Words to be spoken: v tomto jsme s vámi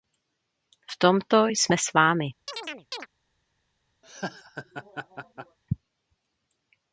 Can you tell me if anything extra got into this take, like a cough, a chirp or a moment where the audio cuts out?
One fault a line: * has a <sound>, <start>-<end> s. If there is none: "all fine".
* has a chirp, 2.5-3.1 s
* has a laugh, 4.0-5.6 s